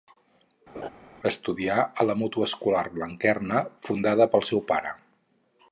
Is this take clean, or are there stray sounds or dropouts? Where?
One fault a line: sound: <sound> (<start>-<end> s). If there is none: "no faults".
sound: laugh (0.7-0.9 s)